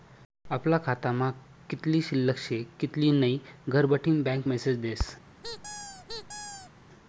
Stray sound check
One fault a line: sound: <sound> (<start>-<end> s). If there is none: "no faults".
sound: squeak (5.4-6.7 s)